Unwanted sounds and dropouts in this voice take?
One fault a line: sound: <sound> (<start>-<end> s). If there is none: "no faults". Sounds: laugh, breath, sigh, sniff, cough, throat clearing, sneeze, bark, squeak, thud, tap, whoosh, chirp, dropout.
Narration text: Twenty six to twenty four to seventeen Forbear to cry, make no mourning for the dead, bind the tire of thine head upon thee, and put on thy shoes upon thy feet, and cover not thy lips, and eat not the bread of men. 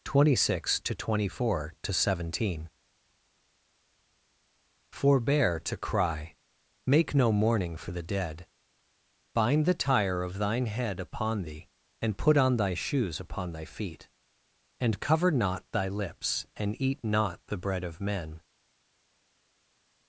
no faults